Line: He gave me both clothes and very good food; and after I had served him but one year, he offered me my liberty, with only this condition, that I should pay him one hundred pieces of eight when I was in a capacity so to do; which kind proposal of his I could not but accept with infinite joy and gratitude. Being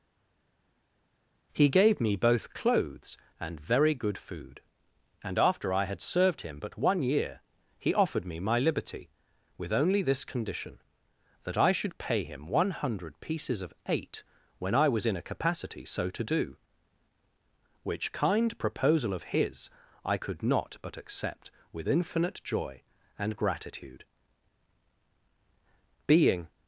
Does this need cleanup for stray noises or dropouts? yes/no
no